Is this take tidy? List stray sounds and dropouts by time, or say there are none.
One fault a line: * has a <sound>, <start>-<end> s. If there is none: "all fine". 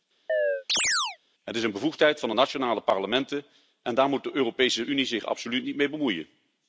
* has a chirp, 0.3-1.2 s